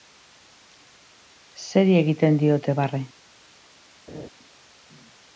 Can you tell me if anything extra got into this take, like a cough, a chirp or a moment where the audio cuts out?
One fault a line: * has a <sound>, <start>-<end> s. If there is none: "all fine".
* has a laugh, 4.1-4.3 s